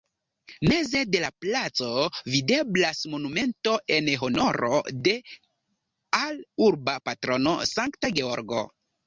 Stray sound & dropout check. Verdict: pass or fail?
pass